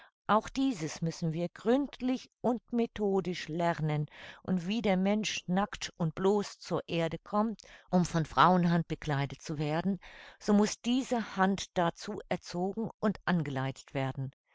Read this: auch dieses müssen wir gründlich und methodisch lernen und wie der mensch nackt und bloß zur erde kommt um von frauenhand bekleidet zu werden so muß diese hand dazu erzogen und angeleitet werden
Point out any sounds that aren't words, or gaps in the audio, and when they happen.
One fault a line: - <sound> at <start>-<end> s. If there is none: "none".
none